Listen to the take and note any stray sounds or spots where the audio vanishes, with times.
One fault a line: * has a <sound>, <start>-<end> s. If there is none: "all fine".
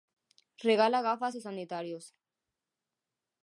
all fine